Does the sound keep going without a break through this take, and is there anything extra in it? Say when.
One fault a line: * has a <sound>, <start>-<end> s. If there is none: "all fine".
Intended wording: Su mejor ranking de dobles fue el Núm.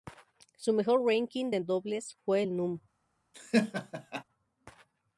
* has a laugh, 3.3-4.2 s